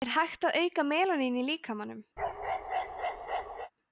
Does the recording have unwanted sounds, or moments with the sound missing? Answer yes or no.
yes